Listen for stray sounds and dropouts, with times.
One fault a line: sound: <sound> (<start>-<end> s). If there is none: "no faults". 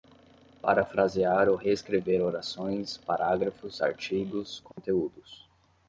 sound: dropout (4.7-4.8 s)